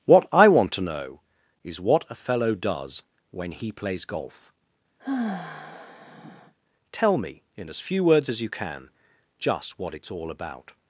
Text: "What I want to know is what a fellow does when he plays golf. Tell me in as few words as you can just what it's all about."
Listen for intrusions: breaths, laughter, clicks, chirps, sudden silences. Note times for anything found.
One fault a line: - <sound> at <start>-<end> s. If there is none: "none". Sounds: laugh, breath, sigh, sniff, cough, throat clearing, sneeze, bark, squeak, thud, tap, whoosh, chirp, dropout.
- sigh at 5.0-6.5 s